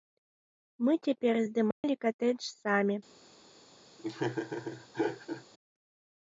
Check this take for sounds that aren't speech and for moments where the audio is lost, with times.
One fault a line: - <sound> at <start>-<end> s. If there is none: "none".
- dropout at 1.7-1.8 s
- laugh at 4.0-5.4 s